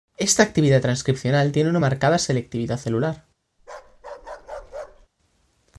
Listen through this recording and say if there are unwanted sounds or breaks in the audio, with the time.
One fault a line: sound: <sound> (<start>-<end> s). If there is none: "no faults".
sound: bark (3.6-5.1 s)